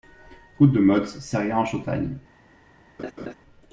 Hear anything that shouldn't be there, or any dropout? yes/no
yes